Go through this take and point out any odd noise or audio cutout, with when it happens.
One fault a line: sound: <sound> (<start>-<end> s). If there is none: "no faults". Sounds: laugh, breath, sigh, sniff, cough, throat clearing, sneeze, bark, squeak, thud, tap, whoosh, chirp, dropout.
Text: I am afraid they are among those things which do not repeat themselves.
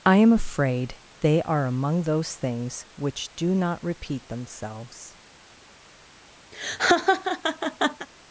sound: laugh (6.5-8.1 s)